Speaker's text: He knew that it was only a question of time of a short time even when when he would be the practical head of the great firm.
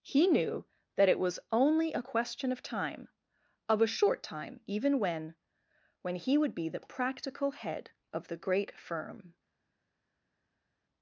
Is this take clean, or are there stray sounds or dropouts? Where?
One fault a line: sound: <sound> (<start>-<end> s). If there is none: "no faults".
no faults